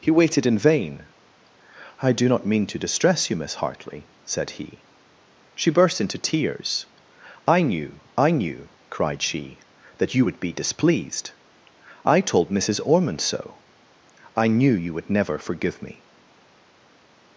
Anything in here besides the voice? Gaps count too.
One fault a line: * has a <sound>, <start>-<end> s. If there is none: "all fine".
all fine